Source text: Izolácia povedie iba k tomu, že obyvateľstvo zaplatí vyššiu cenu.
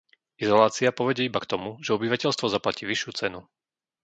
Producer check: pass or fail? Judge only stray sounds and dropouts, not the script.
pass